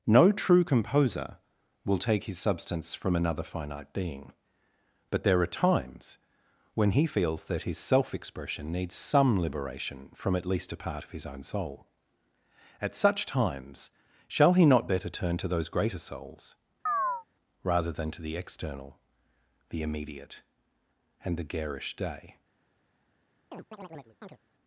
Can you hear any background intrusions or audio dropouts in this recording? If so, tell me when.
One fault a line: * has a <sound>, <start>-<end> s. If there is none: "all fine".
* has a chirp, 16.9-17.2 s
* has a chirp, 23.5-24.4 s